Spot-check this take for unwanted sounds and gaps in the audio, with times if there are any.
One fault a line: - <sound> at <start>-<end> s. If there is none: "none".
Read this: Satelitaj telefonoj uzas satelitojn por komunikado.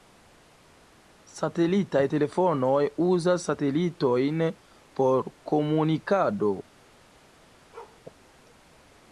- bark at 7.7-8.0 s